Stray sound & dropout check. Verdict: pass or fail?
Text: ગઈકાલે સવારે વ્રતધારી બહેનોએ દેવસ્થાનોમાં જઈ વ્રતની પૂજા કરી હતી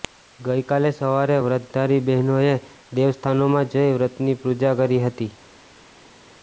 pass